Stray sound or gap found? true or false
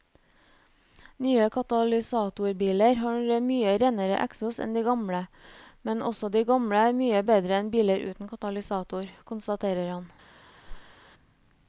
true